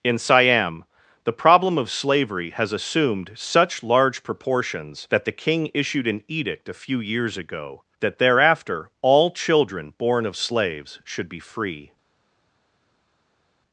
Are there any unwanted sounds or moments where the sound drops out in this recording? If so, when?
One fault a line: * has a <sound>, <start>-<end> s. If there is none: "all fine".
all fine